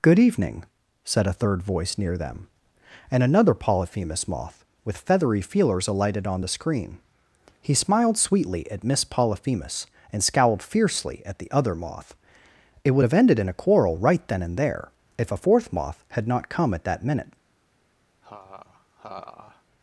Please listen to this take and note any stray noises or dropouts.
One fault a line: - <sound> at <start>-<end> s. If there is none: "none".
- laugh at 18.2-19.6 s